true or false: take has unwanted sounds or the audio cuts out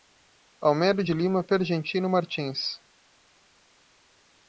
false